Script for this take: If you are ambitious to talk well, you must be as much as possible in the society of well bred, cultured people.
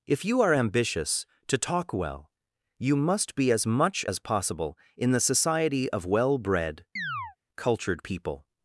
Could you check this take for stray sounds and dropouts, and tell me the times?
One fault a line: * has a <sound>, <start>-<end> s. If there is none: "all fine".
* has a chirp, 7.0-7.4 s